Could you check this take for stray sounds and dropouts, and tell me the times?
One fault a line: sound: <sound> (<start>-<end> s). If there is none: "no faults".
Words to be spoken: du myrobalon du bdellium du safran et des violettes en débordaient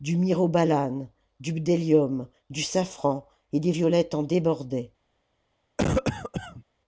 sound: cough (5.8-6.6 s)